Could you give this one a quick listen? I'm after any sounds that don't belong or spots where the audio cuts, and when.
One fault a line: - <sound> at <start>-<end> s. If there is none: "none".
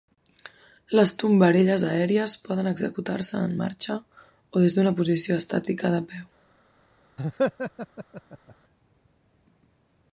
- laugh at 7.2-8.5 s